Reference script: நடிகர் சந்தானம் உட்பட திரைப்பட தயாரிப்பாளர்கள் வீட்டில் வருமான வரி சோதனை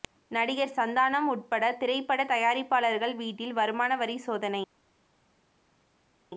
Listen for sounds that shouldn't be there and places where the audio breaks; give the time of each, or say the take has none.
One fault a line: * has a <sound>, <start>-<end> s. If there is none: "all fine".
all fine